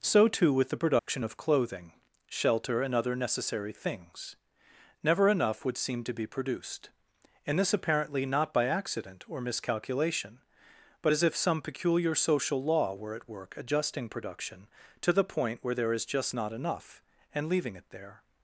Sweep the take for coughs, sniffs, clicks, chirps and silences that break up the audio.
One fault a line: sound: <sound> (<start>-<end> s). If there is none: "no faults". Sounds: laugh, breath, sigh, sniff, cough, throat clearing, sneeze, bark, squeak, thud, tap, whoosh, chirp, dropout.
sound: dropout (1.0-1.1 s)